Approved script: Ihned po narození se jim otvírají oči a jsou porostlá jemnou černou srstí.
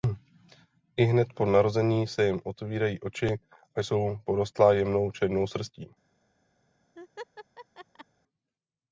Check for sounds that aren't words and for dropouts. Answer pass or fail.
fail